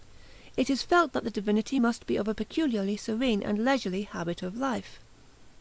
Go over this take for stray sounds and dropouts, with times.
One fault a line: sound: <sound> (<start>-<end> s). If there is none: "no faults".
no faults